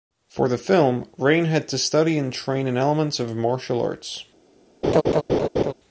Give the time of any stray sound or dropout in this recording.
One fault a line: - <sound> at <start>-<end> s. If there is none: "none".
- laugh at 4.8-5.7 s